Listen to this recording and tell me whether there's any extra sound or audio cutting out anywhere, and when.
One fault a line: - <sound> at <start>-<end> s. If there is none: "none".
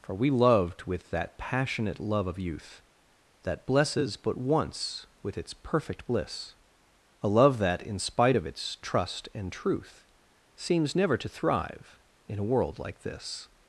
none